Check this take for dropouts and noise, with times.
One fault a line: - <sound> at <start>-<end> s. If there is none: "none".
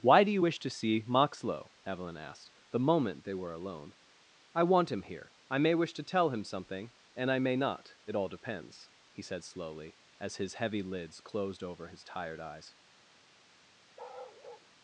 - bark at 14.0-14.7 s